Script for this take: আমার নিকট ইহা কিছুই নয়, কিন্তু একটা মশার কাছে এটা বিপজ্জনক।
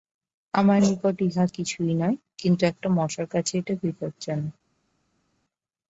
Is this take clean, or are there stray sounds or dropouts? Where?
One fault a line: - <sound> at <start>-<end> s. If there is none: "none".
none